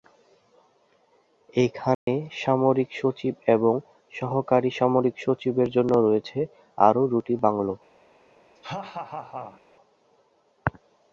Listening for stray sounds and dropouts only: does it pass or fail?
fail